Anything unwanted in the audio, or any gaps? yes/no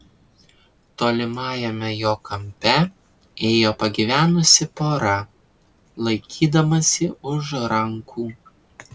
no